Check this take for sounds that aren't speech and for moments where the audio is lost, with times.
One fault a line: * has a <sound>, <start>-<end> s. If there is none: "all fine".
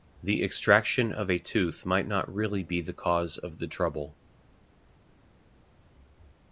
all fine